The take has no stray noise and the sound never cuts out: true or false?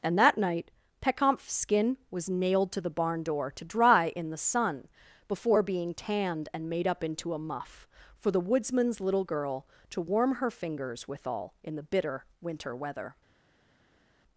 true